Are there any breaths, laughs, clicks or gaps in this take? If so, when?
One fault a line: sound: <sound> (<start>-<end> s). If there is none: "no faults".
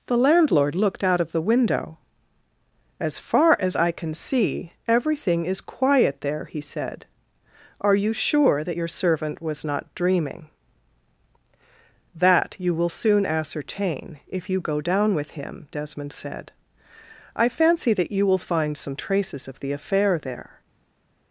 no faults